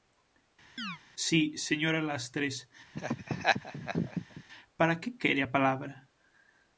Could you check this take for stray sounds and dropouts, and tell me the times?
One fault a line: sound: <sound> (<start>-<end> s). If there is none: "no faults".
sound: chirp (0.8-1.0 s)
sound: laugh (2.9-4.4 s)